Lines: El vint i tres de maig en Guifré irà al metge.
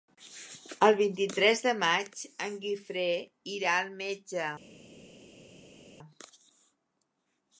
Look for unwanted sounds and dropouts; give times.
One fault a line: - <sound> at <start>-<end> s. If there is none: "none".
none